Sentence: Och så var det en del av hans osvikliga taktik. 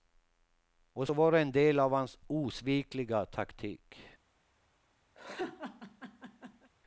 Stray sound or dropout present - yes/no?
yes